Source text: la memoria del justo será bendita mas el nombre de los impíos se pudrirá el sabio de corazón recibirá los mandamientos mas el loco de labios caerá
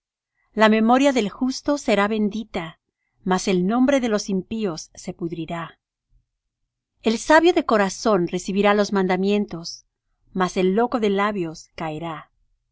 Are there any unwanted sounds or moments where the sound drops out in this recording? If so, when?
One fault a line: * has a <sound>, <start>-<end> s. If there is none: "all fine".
all fine